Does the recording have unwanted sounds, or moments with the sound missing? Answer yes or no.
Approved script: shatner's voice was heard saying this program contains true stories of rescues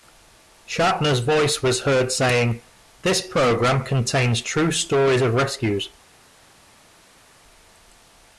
no